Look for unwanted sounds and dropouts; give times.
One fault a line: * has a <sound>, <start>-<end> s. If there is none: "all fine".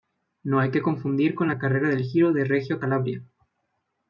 all fine